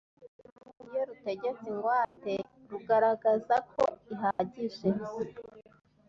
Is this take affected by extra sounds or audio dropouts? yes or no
yes